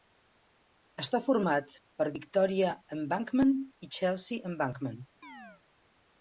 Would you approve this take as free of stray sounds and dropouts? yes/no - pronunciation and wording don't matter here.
no